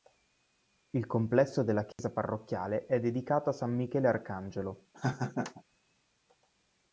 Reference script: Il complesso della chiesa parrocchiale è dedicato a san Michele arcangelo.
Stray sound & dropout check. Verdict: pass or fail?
fail